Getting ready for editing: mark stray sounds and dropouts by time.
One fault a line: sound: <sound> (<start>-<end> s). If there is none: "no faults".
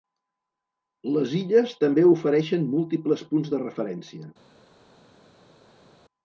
no faults